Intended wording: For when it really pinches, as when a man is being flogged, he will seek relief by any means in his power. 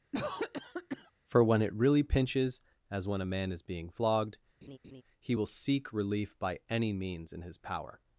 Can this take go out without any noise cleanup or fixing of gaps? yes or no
no